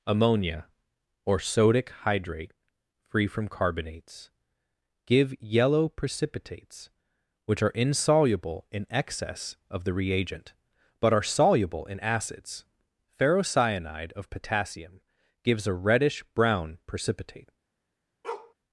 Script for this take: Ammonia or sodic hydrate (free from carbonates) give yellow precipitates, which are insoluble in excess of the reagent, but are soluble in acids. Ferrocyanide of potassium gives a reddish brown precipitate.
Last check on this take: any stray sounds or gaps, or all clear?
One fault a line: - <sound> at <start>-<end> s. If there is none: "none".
- bark at 18.2-18.5 s